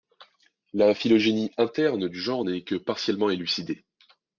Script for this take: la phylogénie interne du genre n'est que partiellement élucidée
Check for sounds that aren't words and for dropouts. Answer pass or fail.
pass